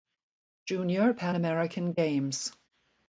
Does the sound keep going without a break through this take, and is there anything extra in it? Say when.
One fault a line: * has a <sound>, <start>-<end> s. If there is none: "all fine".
all fine